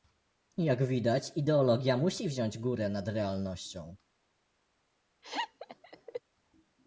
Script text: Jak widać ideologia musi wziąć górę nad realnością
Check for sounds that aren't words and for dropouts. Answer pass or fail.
fail